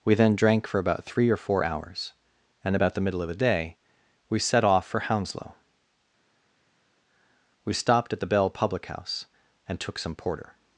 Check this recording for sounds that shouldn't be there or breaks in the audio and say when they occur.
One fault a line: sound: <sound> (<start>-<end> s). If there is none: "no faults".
no faults